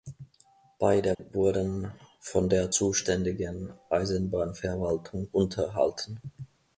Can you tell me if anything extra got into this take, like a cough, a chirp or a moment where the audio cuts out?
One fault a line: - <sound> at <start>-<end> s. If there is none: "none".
- dropout at 1.1-1.2 s